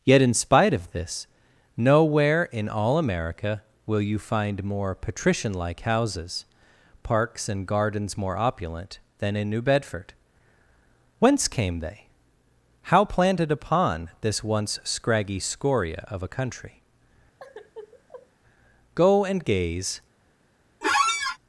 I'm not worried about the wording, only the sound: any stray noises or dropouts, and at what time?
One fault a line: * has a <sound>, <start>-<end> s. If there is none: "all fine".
* has a sigh, 17.4-18.3 s
* has a squeak, 20.8-21.4 s